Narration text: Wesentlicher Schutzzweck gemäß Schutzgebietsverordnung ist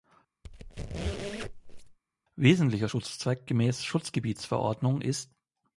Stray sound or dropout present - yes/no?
yes